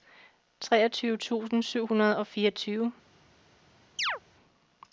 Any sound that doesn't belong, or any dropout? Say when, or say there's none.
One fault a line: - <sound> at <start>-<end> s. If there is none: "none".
- chirp at 4.0-4.2 s